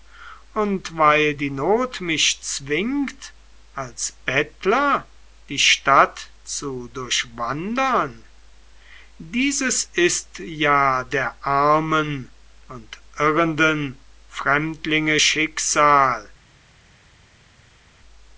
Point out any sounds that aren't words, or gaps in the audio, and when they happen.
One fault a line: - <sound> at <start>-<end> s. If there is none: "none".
none